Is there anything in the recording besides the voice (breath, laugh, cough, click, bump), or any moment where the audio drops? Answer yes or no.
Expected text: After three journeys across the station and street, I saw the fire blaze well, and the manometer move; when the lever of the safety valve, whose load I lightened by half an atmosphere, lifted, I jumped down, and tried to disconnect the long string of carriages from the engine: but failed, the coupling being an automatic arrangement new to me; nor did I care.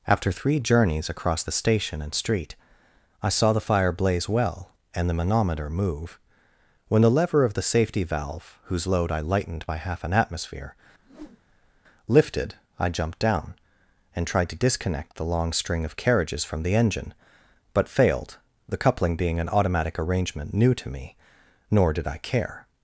yes